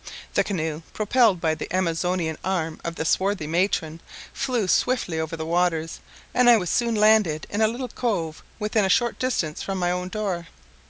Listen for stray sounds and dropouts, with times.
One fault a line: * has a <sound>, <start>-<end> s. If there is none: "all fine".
all fine